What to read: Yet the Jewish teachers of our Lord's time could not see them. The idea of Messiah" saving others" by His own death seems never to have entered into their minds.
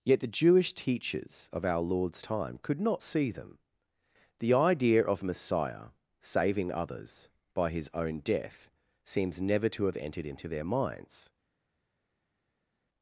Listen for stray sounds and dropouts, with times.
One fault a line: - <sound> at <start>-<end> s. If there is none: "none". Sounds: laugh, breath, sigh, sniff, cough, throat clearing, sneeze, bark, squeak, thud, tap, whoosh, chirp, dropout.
none